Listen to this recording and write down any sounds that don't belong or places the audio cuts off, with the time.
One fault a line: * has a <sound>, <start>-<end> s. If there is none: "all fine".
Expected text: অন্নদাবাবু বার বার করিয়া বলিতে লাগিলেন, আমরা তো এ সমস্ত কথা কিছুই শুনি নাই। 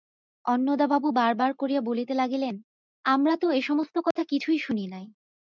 * has a dropout, 4.1-4.2 s